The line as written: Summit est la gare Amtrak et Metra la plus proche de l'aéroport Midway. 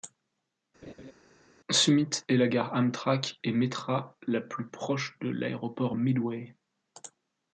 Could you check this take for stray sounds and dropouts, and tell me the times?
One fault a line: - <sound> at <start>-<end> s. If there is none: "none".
- laugh at 0.8-1.1 s